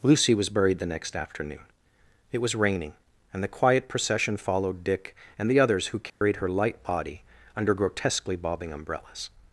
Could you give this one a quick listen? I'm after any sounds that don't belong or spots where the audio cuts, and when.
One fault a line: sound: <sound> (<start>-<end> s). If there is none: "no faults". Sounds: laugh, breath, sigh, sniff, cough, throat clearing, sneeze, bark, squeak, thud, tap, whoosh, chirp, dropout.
sound: dropout (6.1-6.2 s)